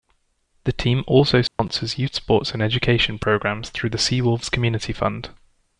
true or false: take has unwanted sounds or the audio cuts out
true